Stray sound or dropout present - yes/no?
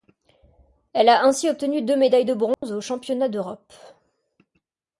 yes